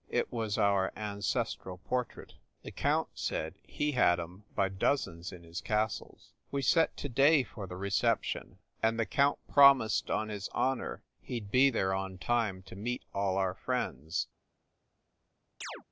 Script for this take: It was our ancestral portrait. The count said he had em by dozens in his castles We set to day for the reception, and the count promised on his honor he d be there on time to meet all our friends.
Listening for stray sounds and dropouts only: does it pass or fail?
fail